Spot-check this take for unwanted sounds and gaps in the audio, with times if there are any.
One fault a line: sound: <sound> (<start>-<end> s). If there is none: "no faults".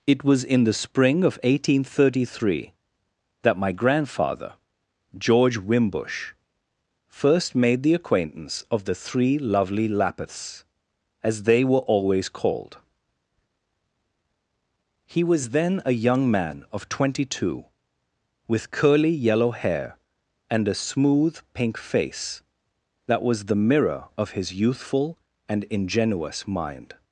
no faults